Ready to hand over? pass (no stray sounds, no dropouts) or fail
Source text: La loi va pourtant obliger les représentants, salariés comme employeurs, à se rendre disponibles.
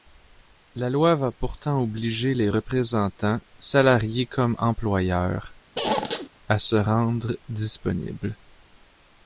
fail